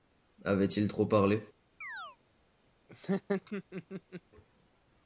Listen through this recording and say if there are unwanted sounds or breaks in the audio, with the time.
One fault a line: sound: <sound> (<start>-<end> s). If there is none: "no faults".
sound: chirp (1.8-2.2 s)
sound: laugh (2.9-4.2 s)